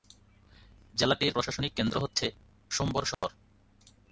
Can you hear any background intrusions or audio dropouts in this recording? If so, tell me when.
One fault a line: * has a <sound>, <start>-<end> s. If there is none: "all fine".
* has a dropout, 3.1-3.2 s